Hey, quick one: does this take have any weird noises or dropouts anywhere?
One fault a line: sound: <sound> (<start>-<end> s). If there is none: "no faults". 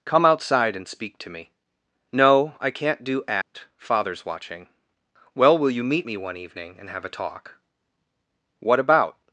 sound: dropout (3.4-3.5 s)